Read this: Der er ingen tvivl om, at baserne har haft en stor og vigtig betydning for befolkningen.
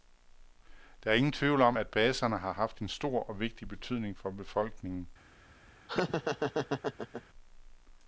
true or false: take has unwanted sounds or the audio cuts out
true